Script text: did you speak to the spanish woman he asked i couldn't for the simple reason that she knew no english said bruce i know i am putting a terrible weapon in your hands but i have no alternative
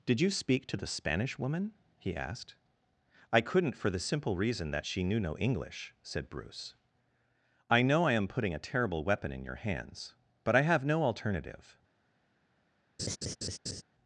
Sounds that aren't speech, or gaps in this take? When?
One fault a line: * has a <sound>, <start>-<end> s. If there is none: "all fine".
* has a laugh, 13.0-13.8 s